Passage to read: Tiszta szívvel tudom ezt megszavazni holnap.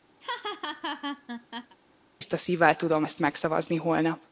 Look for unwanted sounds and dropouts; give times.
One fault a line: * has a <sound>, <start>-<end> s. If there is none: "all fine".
* has a laugh, 0.2-1.8 s